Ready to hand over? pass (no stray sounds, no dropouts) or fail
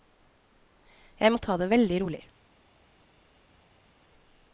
pass